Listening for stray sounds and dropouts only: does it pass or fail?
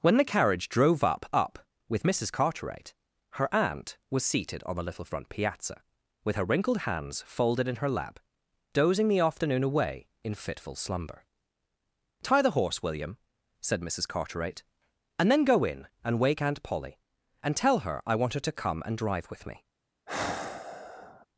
fail